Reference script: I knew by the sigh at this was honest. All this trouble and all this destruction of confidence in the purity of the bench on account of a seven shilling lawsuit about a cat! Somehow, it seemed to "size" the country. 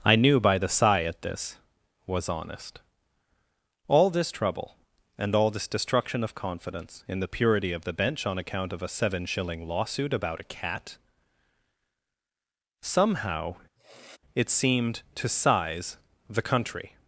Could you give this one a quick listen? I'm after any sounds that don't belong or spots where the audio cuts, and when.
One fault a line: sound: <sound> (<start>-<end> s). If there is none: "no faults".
sound: sniff (13.8-14.2 s)